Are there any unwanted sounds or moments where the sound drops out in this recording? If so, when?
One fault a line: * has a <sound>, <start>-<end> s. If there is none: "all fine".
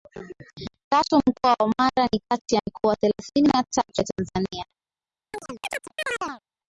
* has a chirp, 5.3-6.4 s